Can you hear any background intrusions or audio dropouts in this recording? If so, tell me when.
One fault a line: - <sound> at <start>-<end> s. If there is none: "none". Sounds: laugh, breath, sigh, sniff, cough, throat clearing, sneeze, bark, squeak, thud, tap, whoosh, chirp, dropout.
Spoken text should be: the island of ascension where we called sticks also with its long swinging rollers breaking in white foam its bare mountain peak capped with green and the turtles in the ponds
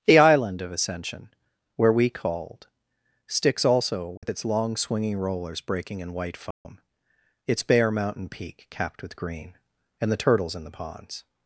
- dropout at 4.2-4.2 s
- dropout at 6.5-6.7 s